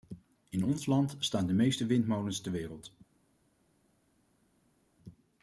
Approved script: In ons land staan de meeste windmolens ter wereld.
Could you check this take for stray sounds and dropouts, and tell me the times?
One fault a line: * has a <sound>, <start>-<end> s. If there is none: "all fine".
all fine